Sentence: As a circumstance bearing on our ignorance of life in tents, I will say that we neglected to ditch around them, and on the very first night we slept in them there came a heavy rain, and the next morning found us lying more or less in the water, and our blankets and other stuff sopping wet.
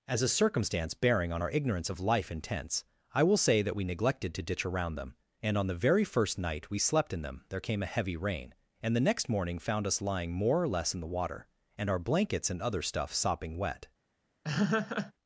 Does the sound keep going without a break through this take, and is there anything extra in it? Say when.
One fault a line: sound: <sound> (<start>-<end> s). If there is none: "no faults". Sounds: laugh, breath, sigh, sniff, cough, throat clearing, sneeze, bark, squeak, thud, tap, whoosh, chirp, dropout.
sound: laugh (14.4-15.1 s)